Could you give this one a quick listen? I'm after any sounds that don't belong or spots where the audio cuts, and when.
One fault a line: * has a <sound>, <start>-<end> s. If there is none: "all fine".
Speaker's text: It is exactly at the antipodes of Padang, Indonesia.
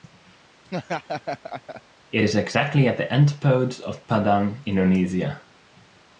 * has a laugh, 0.7-1.8 s